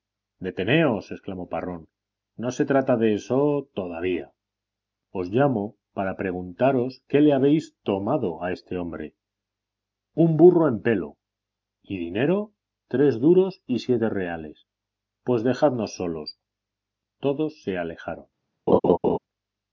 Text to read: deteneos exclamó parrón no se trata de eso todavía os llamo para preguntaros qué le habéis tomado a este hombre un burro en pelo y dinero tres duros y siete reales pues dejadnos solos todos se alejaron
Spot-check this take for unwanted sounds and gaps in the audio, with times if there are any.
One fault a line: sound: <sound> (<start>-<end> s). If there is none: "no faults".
sound: laugh (18.7-19.2 s)